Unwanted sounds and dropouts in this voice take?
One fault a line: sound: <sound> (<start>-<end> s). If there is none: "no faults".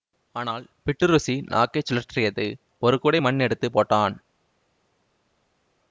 no faults